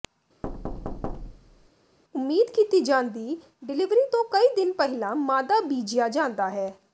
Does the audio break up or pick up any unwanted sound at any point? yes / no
yes